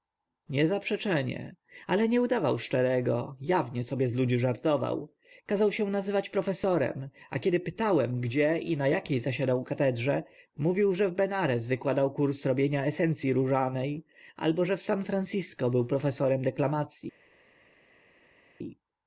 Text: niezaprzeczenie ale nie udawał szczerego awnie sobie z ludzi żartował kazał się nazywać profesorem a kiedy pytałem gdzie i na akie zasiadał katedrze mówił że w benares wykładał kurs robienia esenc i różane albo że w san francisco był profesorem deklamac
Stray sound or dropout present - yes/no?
no